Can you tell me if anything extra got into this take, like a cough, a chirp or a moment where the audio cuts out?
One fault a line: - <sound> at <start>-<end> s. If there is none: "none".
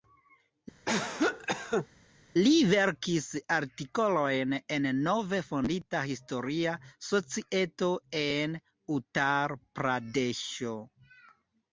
- cough at 0.9-1.9 s